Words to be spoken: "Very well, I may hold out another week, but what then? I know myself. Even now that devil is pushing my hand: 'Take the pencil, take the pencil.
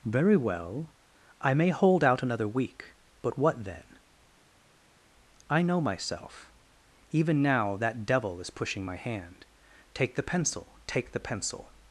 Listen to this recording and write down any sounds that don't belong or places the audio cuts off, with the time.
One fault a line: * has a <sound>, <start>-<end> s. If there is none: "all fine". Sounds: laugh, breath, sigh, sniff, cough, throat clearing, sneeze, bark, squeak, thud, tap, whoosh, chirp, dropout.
all fine